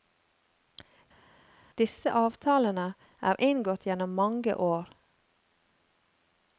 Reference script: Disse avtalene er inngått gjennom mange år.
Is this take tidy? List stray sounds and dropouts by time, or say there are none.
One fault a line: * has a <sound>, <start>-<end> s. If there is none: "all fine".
all fine